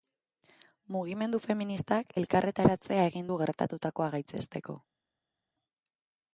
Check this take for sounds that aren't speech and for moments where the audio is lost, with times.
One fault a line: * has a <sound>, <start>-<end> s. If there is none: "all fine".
all fine